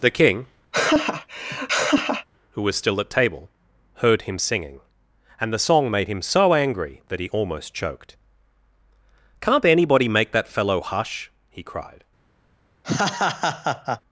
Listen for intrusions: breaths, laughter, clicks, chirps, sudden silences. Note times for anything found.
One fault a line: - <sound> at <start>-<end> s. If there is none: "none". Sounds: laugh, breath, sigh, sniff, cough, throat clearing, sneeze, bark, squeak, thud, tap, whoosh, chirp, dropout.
- laugh at 0.7-2.3 s
- laugh at 12.8-14.0 s